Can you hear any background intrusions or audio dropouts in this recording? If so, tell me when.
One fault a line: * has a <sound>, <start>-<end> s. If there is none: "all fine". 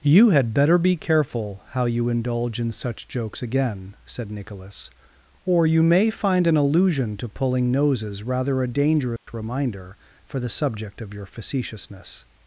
* has a dropout, 9.2-9.3 s